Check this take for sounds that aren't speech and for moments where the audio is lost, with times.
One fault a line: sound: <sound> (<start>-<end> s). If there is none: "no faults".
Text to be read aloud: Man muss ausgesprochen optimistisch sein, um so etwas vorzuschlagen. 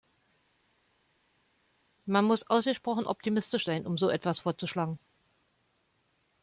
no faults